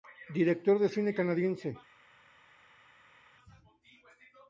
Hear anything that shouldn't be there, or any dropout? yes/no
no